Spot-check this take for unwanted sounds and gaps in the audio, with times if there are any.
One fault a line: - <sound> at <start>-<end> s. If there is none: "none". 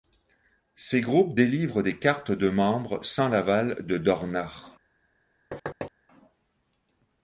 - thud at 5.5-5.9 s